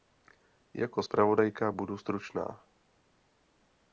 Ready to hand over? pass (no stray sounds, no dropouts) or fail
pass